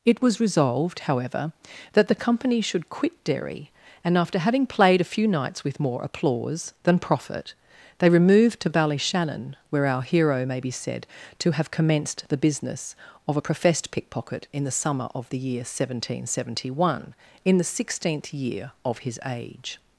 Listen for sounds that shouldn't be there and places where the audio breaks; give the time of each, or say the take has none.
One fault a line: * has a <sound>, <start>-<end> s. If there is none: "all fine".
all fine